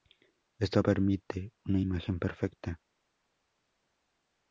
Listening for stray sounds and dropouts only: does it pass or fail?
pass